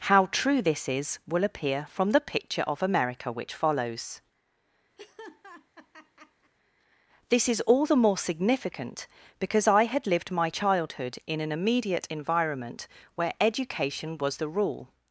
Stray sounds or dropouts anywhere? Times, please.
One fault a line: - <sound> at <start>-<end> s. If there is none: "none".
- laugh at 5.0-6.5 s